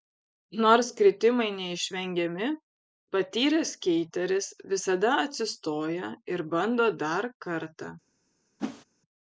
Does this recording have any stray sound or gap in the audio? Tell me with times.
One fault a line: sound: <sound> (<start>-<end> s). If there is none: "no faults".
sound: whoosh (8.6-8.8 s)